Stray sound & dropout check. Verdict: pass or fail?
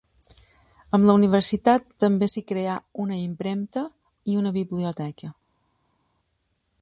pass